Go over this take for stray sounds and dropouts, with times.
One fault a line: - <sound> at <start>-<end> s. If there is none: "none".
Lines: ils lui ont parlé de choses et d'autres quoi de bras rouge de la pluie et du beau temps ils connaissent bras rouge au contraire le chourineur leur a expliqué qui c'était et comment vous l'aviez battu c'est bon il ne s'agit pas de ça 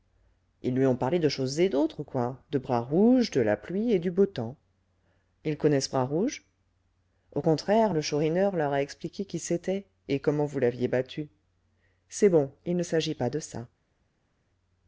none